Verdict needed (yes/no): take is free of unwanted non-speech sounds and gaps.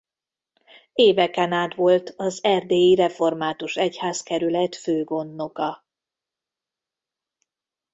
yes